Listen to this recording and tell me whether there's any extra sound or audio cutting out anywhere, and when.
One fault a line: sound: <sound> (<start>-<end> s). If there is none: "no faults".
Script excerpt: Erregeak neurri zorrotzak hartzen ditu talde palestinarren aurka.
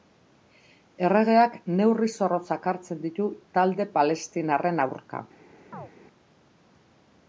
sound: chirp (5.7-5.9 s)